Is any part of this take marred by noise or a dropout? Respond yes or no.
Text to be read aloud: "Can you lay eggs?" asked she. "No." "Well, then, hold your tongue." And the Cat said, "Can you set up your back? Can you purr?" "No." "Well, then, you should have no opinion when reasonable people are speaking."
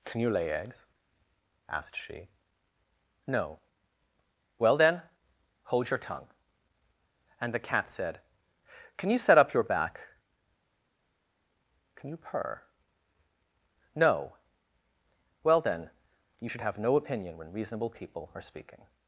no